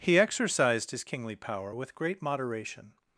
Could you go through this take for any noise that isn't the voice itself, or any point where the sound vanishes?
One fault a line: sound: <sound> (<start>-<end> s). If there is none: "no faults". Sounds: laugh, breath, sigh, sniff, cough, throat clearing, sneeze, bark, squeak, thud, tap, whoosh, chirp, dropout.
no faults